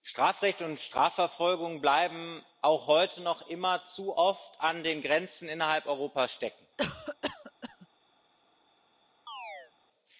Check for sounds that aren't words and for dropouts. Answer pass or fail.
fail